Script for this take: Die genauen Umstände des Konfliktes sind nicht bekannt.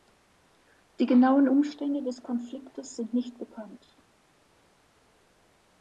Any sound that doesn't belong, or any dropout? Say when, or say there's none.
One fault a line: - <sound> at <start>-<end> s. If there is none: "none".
none